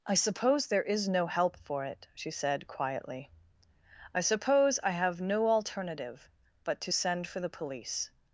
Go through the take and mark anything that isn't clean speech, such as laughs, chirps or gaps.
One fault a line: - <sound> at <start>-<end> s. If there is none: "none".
none